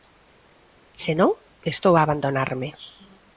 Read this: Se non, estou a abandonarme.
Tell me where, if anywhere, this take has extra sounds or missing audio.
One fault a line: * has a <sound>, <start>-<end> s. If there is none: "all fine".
all fine